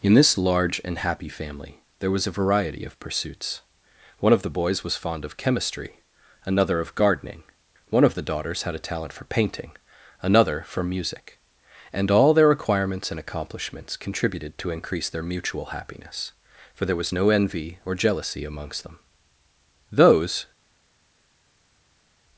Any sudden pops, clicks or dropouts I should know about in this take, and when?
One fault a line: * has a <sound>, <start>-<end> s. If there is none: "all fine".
all fine